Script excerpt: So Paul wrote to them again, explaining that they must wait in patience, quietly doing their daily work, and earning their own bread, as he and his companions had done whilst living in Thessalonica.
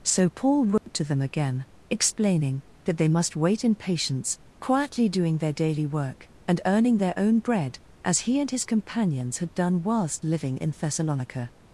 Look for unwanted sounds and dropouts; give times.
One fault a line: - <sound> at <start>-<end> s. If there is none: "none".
- dropout at 0.8-0.9 s